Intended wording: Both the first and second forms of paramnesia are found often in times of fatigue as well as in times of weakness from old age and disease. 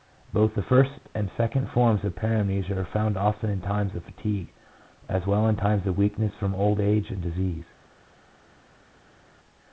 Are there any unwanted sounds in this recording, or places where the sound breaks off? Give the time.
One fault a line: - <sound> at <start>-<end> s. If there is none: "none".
none